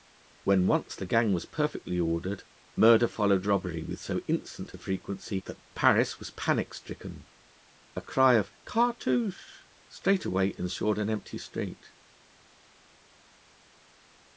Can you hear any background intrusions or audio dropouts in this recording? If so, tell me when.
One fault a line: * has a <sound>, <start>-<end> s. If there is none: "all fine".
all fine